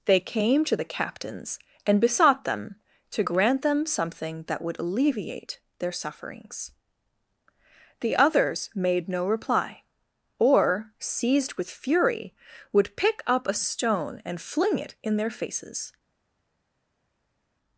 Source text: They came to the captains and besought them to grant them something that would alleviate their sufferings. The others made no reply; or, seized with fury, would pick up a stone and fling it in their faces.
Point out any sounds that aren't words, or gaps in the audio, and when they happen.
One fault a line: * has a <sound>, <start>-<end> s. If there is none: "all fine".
all fine